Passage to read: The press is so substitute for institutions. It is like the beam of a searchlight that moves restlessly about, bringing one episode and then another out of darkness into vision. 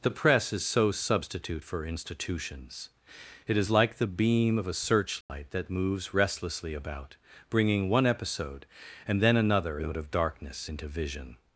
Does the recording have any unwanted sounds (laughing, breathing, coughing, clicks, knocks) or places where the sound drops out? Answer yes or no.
yes